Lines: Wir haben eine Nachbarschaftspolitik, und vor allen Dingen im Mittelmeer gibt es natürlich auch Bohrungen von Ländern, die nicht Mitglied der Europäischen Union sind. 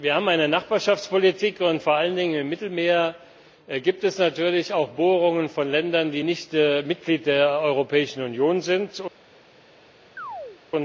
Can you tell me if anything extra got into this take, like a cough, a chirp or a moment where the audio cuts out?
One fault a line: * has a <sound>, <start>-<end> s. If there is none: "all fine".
* has a chirp, 10.2-10.6 s